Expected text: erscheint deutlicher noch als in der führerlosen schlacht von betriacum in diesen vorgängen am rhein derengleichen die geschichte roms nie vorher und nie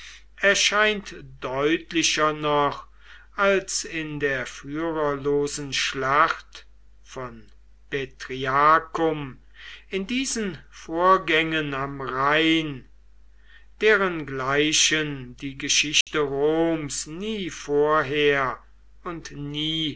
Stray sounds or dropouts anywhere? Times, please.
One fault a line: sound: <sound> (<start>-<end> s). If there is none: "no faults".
sound: dropout (16.0-16.1 s)